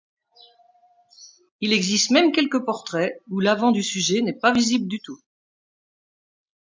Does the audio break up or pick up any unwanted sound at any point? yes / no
no